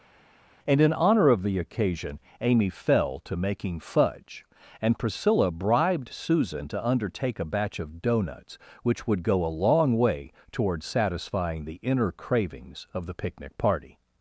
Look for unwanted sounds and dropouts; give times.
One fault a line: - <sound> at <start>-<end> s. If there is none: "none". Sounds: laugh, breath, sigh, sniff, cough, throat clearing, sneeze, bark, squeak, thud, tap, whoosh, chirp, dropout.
none